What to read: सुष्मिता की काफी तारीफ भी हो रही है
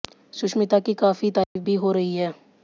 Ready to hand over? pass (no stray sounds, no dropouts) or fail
fail